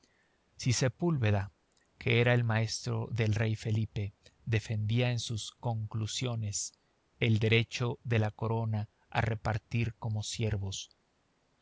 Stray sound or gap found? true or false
false